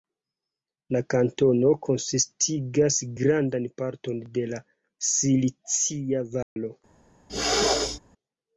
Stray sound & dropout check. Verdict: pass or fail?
fail